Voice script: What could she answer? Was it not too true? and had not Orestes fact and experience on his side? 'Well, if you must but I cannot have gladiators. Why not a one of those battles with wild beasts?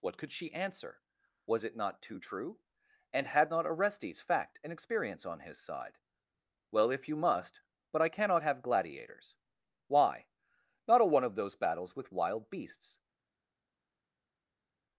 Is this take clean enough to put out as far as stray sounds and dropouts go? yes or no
yes